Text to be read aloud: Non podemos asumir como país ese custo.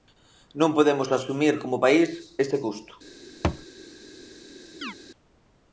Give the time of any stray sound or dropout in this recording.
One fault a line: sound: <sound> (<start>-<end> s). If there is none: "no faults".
sound: thud (3.4-3.7 s)
sound: chirp (4.8-4.9 s)